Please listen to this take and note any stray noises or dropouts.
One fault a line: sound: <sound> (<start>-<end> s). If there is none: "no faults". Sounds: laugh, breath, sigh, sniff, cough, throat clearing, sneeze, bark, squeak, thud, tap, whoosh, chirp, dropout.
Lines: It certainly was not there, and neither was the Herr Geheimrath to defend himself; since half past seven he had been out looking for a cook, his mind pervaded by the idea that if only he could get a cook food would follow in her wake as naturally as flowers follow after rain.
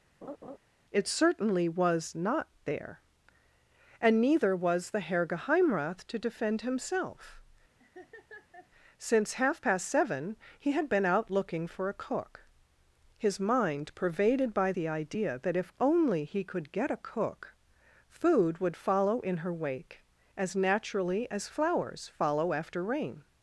sound: laugh (0.2-0.6 s)
sound: laugh (7.8-8.7 s)